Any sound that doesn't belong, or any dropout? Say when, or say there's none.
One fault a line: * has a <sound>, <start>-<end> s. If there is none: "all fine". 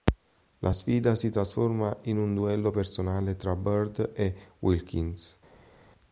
all fine